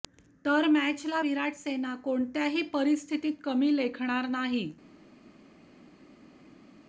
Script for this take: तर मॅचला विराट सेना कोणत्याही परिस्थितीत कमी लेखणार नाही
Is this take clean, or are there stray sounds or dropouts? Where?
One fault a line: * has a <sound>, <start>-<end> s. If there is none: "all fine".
all fine